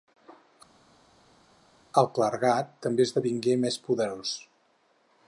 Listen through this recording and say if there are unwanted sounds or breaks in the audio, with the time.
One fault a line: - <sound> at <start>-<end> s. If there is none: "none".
none